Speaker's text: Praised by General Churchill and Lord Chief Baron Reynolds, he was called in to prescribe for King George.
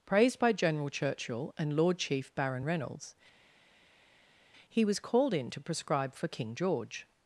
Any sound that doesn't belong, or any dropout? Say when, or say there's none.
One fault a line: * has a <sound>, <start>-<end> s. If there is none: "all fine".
all fine